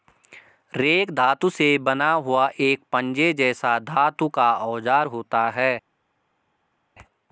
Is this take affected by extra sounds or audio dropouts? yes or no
no